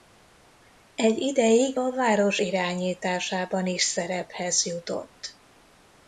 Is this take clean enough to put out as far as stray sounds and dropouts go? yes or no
yes